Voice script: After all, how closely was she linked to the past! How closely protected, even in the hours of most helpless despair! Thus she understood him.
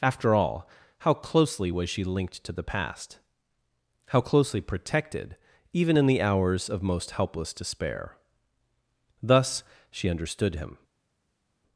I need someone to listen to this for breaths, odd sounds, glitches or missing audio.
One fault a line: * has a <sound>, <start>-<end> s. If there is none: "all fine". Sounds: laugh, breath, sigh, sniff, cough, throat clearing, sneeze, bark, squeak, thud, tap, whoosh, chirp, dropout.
all fine